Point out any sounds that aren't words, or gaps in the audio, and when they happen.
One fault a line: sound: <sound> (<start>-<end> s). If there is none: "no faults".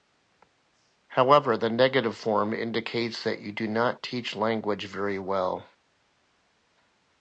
no faults